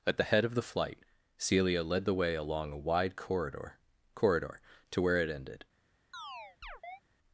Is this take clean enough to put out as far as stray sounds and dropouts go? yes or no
no